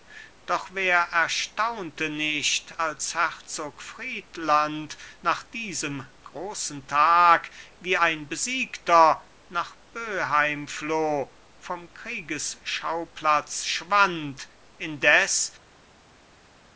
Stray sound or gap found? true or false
false